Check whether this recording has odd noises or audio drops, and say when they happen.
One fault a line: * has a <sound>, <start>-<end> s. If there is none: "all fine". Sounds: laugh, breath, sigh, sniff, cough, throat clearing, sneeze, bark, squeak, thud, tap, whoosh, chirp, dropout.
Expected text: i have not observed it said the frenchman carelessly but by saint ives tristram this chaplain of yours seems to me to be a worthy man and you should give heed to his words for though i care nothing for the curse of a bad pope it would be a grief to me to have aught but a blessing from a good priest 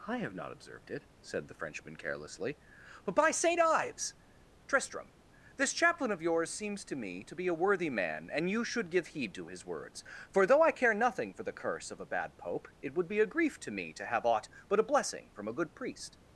all fine